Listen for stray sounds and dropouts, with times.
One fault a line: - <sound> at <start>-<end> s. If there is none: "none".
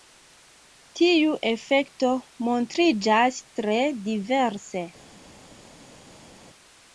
none